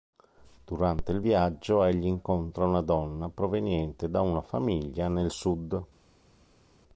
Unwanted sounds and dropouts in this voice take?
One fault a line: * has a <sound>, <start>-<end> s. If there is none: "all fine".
all fine